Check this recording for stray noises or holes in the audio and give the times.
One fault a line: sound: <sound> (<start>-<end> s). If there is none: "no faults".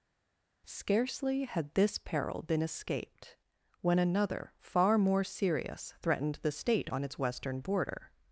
no faults